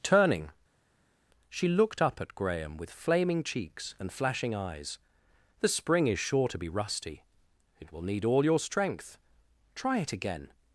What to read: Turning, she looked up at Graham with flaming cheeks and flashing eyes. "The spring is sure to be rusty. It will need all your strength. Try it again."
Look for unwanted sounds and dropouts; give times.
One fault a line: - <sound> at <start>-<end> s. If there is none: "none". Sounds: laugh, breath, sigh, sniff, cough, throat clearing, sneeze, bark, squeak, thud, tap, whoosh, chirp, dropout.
none